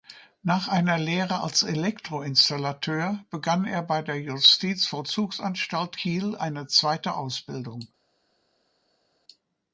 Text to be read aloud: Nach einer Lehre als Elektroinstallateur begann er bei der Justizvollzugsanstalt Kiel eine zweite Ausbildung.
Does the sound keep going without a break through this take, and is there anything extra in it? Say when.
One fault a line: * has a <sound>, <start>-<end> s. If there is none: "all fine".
all fine